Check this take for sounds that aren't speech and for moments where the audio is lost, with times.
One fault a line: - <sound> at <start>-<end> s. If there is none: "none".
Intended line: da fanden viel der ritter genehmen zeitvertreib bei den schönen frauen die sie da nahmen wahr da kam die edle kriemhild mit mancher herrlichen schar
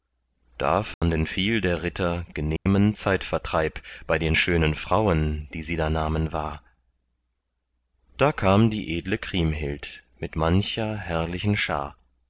- dropout at 0.9-1.0 s
- dropout at 2.6-2.7 s